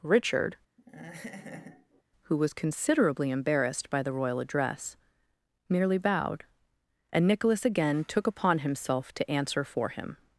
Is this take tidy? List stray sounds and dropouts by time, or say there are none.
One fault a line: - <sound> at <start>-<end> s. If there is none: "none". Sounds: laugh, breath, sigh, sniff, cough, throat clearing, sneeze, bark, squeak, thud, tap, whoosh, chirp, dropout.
- laugh at 0.8-2.0 s